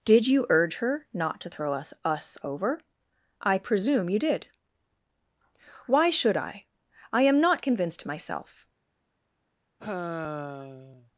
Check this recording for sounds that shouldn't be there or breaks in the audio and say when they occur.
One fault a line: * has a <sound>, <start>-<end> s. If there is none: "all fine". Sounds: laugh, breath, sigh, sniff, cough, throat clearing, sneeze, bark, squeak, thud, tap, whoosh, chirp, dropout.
* has a sigh, 9.8-11.1 s